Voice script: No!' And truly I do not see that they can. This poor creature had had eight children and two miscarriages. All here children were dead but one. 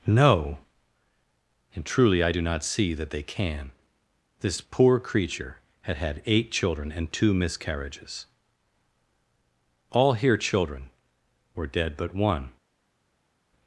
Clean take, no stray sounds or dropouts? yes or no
yes